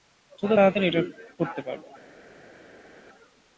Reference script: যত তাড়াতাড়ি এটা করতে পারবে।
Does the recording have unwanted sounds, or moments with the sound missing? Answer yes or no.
no